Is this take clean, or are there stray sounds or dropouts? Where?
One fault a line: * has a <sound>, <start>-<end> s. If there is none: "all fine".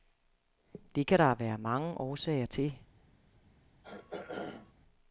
* has a throat clearing, 3.8-4.7 s